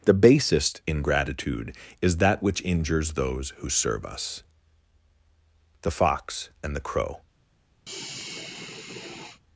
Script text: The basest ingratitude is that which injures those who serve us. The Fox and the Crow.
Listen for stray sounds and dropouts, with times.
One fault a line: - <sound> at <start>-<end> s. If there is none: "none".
- sigh at 7.9-9.4 s